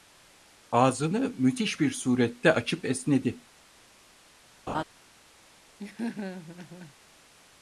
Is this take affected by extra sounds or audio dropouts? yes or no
yes